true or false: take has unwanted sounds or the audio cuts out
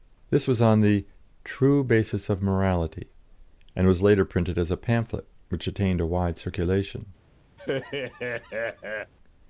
true